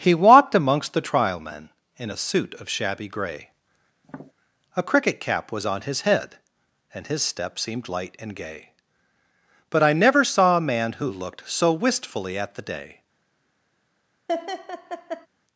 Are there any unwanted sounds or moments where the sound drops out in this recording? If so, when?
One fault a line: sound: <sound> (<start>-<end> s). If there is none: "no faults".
sound: tap (4.0-4.3 s)
sound: laugh (14.3-15.3 s)